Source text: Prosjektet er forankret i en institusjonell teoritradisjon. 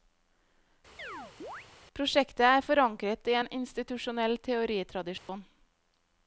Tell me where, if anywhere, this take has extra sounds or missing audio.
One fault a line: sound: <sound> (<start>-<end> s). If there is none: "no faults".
sound: chirp (1.0-1.7 s)
sound: dropout (5.2-5.3 s)